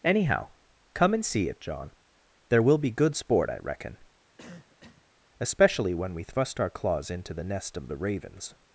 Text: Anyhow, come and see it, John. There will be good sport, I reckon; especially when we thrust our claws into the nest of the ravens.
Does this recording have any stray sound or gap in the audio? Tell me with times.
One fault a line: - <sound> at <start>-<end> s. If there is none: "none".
- cough at 4.4-5.1 s